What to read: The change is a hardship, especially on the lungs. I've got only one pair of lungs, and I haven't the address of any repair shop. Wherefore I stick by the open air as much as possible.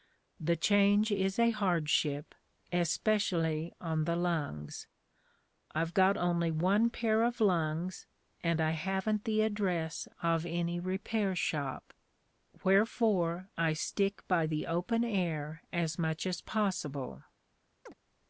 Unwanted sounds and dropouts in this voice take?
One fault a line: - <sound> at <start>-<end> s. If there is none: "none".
- chirp at 17.9-17.9 s